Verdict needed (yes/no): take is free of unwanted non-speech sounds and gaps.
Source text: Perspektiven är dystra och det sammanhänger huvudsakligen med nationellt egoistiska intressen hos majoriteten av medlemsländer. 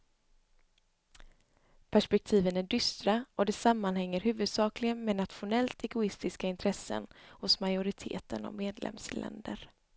yes